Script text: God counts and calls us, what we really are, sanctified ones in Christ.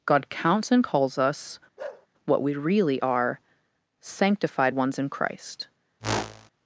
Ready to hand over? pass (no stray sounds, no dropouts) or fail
fail